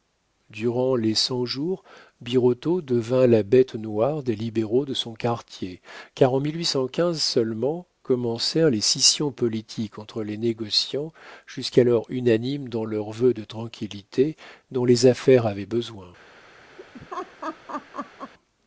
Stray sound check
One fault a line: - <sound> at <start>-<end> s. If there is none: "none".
- laugh at 16.8-18.3 s